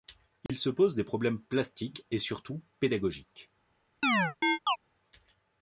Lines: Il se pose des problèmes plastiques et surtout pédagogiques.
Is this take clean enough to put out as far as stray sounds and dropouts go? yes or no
no